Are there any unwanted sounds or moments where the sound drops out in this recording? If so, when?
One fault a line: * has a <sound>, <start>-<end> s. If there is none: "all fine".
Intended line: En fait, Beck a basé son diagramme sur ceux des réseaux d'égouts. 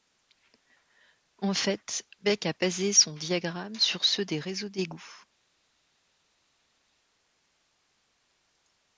all fine